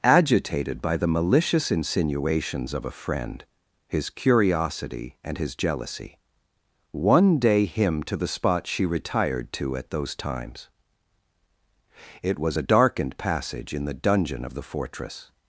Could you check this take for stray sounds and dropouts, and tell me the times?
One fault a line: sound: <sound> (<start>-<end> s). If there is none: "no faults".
no faults